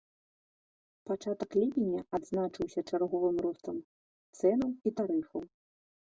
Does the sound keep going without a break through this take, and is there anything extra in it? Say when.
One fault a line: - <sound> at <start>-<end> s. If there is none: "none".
none